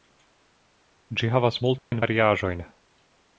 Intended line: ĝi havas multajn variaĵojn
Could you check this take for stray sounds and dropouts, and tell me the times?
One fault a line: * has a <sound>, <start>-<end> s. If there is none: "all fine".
* has a dropout, 1.8-1.9 s